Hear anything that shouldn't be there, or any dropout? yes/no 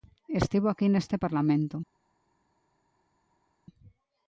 no